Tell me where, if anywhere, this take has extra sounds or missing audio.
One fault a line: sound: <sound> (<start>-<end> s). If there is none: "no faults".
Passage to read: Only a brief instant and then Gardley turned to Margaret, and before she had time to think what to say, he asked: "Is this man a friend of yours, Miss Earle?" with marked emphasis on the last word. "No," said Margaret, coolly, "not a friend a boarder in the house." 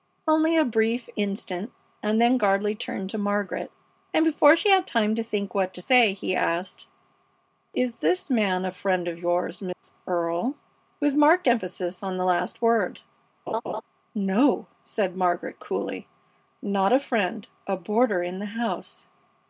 sound: dropout (9.7-9.8 s)
sound: laugh (13.5-13.8 s)